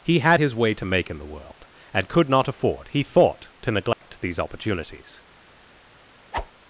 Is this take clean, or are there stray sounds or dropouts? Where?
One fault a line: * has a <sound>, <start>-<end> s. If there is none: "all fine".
* has a dropout, 3.9-4.0 s
* has a whoosh, 6.3-6.5 s